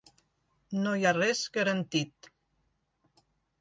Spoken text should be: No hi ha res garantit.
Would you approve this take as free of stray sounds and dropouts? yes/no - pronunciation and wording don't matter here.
yes